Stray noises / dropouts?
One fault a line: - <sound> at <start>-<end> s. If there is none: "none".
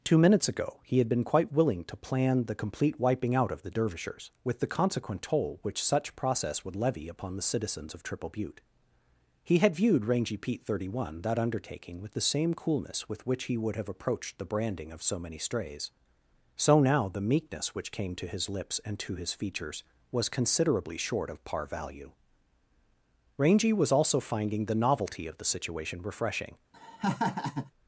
- laugh at 26.7-27.7 s